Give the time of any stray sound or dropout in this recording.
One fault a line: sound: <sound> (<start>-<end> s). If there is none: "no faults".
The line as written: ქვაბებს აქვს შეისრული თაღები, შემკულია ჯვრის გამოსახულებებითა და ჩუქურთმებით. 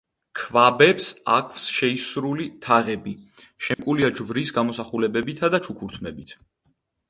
sound: dropout (3.7-3.8 s)